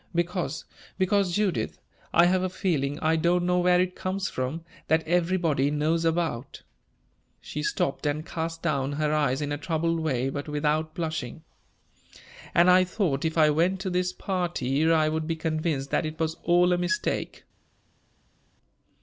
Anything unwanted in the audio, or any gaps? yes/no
no